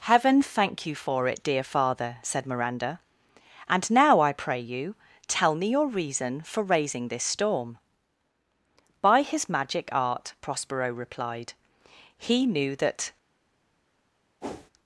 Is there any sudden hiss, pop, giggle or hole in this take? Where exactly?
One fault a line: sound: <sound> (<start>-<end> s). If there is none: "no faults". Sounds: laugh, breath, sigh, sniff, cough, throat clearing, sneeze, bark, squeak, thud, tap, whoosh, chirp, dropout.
sound: whoosh (14.4-14.7 s)